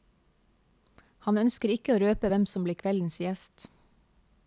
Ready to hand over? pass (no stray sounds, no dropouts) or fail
pass